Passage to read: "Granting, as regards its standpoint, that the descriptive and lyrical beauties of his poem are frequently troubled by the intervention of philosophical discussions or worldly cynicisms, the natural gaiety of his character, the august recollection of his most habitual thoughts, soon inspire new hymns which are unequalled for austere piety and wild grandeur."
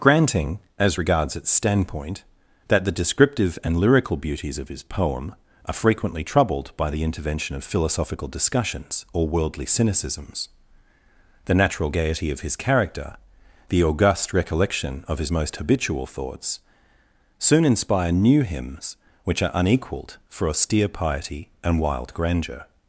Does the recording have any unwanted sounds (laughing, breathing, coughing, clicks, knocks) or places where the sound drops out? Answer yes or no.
no